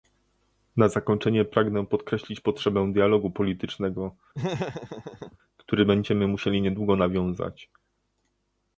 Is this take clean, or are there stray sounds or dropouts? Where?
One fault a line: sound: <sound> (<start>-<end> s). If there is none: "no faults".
sound: laugh (4.3-5.4 s)